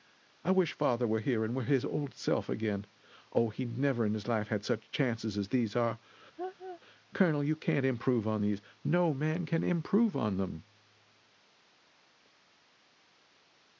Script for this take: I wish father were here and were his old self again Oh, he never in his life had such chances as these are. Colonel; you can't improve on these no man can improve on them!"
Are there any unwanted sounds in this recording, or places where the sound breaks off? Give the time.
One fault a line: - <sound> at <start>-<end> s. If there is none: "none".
- laugh at 6.4-6.8 s